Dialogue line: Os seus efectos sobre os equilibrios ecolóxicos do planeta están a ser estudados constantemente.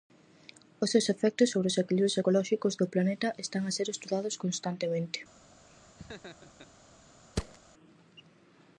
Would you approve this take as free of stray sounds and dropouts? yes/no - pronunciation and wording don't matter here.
no